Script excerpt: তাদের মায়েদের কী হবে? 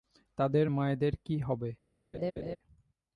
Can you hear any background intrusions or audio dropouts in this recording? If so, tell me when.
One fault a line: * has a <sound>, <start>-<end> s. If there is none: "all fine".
* has a laugh, 2.1-2.6 s